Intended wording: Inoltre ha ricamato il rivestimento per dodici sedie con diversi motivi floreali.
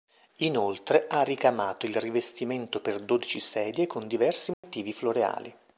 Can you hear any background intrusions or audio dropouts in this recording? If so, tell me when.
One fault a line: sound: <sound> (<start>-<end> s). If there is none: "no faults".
sound: dropout (4.5-4.6 s)